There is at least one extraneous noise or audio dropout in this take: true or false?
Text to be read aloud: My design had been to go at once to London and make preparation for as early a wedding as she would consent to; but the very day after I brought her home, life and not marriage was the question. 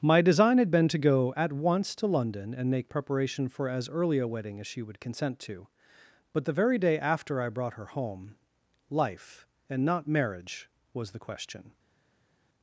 false